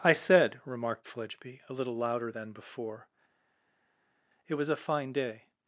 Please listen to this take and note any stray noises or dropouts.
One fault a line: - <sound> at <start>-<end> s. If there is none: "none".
none